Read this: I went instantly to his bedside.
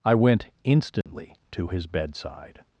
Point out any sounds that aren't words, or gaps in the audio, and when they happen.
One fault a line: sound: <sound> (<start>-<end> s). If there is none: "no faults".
sound: dropout (1.0-1.1 s)